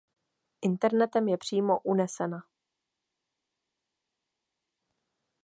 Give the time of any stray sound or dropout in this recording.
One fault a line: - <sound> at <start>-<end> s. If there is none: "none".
none